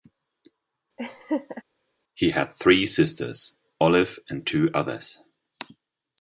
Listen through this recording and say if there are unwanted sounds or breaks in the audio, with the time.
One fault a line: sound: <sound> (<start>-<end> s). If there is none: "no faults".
sound: laugh (1.0-1.6 s)